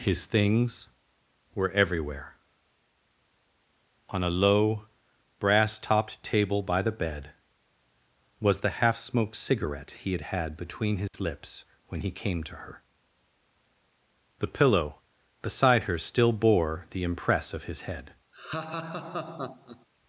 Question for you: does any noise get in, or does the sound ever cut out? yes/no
yes